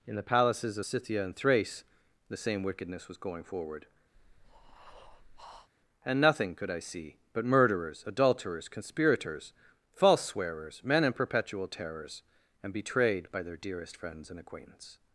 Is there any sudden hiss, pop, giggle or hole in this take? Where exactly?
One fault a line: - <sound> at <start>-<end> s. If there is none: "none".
- breath at 4.1-5.7 s